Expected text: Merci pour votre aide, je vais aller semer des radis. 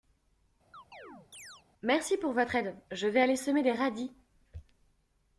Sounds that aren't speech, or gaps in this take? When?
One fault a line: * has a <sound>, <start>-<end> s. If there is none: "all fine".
* has a chirp, 0.7-1.6 s